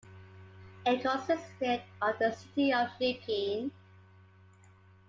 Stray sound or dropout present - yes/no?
no